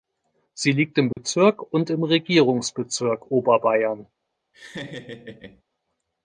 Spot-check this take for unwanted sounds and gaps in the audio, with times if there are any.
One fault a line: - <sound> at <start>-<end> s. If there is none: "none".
- dropout at 1.1-1.2 s
- laugh at 4.5-5.6 s